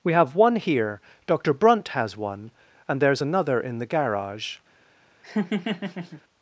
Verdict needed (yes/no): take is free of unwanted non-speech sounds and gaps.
no